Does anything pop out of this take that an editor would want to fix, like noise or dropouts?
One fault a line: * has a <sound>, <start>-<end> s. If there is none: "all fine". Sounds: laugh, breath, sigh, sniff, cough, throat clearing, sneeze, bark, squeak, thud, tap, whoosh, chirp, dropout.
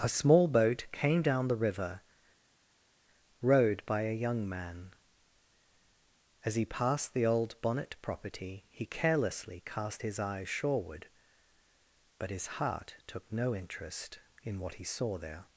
all fine